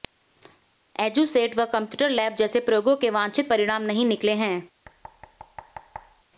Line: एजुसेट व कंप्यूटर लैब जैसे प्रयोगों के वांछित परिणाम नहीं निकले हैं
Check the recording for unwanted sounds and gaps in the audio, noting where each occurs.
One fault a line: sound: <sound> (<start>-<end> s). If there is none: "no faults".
sound: thud (4.8-6.2 s)